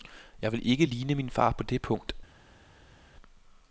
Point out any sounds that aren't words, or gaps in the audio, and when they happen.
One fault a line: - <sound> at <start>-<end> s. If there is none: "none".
none